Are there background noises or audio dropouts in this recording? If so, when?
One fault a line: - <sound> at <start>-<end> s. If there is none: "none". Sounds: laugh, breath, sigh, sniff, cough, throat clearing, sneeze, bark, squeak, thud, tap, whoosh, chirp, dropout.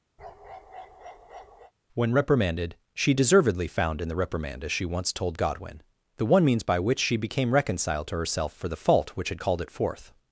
- bark at 0.2-1.7 s